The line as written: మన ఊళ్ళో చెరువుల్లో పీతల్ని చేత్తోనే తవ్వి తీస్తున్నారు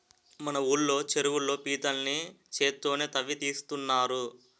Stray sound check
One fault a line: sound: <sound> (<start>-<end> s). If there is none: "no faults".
no faults